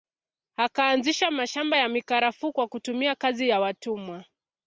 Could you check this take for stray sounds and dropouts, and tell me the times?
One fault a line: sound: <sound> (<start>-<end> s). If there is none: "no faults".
no faults